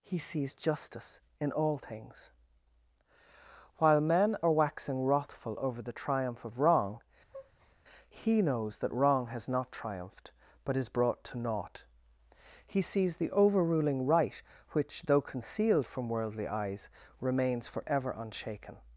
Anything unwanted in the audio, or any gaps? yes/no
yes